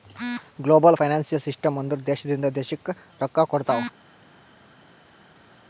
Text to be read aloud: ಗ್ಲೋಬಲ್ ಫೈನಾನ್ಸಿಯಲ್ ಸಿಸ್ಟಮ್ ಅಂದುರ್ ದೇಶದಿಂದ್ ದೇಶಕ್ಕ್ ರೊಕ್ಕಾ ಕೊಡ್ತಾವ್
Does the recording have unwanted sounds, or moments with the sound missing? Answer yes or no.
no